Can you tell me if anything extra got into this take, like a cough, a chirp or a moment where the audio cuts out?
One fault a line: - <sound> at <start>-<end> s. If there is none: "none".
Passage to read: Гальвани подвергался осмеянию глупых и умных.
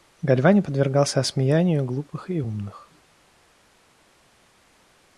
none